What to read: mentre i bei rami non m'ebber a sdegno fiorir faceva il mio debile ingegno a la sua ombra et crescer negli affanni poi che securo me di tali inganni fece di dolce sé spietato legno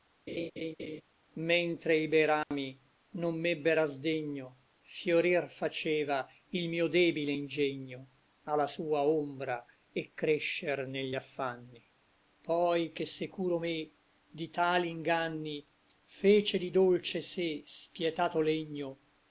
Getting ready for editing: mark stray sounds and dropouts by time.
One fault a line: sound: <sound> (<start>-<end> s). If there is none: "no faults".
sound: laugh (0.3-1.0 s)
sound: dropout (2.4-2.5 s)